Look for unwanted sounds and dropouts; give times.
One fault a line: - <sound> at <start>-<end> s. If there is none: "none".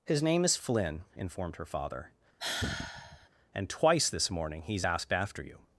- sigh at 2.4-3.3 s